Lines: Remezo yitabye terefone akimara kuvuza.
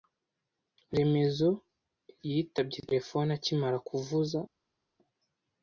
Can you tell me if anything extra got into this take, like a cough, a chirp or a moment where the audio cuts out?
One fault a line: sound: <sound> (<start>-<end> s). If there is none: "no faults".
no faults